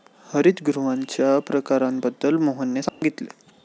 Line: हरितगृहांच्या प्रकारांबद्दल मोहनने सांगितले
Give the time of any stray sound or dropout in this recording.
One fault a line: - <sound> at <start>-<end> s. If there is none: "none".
- dropout at 2.9-3.0 s